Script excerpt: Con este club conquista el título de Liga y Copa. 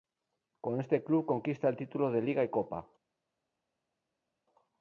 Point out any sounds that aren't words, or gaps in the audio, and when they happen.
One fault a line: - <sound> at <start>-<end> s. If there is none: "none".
none